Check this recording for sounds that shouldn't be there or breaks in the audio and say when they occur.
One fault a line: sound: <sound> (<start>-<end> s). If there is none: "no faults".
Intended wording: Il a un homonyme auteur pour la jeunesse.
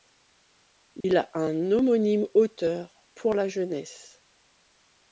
sound: dropout (1.0-1.0 s)